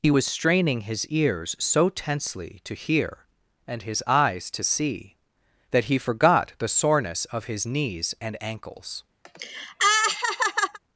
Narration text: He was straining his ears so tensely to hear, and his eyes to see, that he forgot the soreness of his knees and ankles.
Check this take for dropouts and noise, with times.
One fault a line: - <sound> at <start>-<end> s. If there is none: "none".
- laugh at 9.3-10.8 s